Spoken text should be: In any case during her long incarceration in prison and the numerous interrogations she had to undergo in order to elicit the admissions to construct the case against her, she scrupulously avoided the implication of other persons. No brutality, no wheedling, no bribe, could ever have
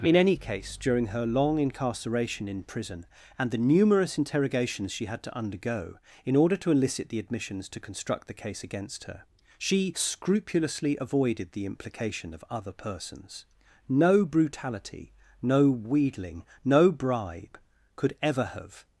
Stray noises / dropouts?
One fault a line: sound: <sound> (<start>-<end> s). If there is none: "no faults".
no faults